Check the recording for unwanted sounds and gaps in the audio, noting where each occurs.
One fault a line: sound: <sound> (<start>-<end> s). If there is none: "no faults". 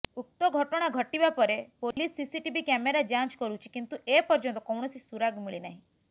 sound: dropout (1.9-2.0 s)